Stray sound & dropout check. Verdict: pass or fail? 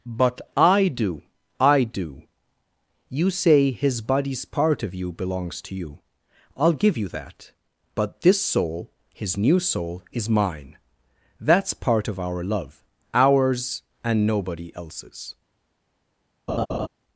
fail